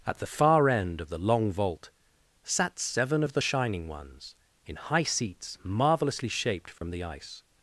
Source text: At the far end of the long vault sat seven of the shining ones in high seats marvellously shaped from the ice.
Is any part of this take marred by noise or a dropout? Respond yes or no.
yes